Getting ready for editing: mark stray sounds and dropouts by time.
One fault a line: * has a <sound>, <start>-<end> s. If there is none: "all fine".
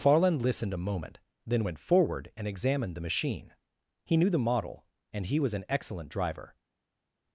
all fine